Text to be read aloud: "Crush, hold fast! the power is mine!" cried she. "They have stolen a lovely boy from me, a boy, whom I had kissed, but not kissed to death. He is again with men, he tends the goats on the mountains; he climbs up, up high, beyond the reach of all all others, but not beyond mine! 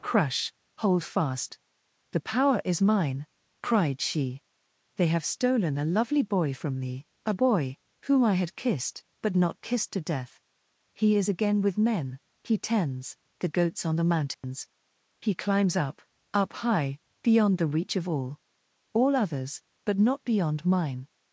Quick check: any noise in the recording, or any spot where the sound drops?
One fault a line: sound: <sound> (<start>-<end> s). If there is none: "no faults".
sound: dropout (14.3-14.4 s)